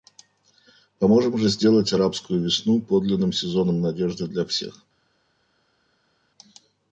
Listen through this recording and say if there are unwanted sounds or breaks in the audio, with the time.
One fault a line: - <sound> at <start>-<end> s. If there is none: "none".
none